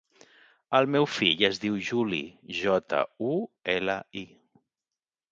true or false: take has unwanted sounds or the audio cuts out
false